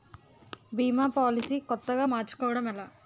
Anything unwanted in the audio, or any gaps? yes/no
no